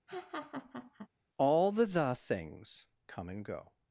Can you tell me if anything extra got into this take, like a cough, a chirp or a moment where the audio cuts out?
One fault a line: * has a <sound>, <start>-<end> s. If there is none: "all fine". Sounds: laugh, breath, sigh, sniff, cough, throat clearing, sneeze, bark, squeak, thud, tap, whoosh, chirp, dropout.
* has a laugh, 0.1-1.1 s